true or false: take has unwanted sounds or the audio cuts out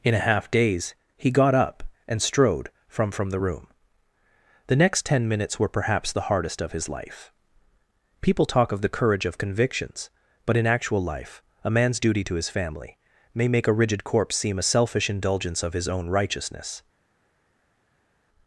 false